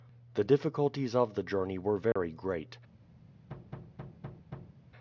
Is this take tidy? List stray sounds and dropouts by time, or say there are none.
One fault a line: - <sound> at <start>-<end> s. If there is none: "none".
- dropout at 2.1-2.2 s
- thud at 3.5-4.8 s